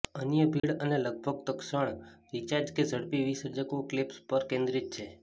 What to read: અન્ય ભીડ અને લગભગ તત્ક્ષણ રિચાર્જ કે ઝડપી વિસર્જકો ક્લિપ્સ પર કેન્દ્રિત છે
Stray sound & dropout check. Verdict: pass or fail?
fail